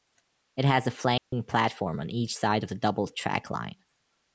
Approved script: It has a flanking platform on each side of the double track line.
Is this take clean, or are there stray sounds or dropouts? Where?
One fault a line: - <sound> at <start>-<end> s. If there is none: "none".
- dropout at 1.2-1.3 s